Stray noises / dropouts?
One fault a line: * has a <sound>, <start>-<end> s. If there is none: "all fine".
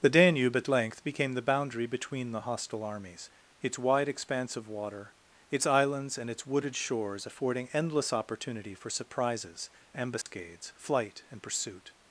* has a dropout, 10.2-10.3 s